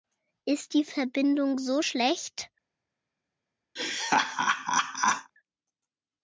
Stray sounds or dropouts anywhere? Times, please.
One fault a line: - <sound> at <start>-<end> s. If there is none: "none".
- laugh at 3.8-5.3 s